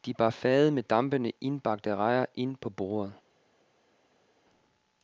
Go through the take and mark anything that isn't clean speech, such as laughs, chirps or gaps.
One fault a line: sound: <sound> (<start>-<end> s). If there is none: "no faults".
no faults